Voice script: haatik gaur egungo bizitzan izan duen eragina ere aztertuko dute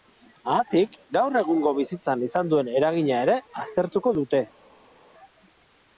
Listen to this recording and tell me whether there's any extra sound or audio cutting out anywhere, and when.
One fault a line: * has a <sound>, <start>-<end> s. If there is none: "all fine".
all fine